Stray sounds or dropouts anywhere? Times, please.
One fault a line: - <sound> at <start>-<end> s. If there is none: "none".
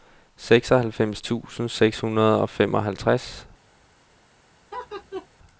- laugh at 4.7-5.3 s